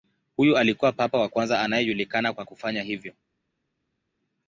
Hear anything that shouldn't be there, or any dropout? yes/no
no